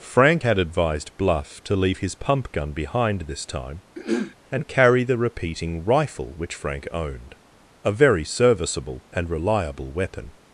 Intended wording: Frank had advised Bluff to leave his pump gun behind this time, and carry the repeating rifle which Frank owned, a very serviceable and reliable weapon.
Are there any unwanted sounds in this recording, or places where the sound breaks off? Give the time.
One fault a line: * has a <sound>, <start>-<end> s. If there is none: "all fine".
* has a throat clearing, 3.9-4.3 s